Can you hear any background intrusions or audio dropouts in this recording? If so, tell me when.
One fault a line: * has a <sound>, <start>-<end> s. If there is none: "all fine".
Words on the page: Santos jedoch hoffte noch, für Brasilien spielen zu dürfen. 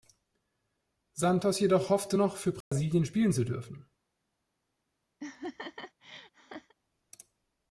* has a dropout, 2.6-2.7 s
* has a laugh, 5.2-6.7 s